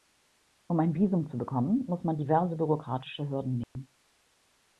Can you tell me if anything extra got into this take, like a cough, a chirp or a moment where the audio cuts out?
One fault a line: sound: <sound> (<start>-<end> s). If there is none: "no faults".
sound: dropout (3.6-3.8 s)